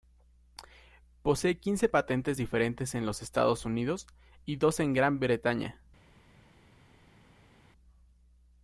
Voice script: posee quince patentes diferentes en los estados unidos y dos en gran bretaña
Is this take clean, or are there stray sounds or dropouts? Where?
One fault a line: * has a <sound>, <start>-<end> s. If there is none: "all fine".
all fine